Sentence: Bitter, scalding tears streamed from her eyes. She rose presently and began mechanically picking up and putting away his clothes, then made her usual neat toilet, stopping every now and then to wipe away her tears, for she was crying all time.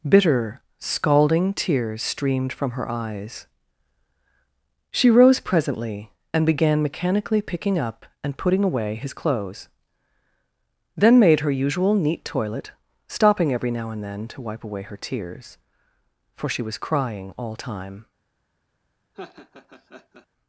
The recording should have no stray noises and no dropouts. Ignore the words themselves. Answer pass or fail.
fail